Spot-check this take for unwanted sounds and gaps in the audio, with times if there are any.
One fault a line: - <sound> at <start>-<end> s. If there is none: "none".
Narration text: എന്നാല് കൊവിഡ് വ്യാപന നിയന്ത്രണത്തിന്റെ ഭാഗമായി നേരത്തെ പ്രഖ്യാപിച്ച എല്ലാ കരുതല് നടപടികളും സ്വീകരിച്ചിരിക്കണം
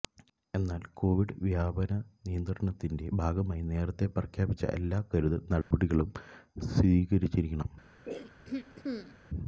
- dropout at 5.6-5.7 s
- throat clearing at 8.1-9.2 s